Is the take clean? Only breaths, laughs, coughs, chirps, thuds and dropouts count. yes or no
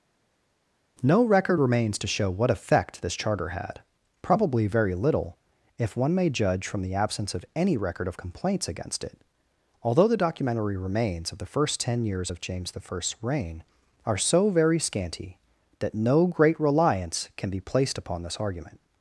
yes